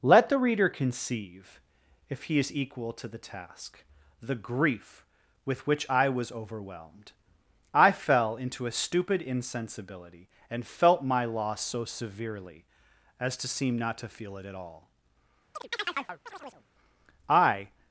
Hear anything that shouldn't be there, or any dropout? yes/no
yes